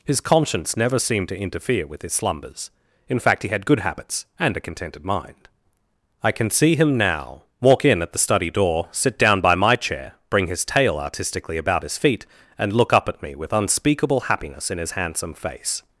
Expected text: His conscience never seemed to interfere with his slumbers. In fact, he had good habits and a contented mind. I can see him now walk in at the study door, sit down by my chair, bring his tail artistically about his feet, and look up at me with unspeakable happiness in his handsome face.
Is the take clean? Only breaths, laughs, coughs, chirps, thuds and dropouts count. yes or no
yes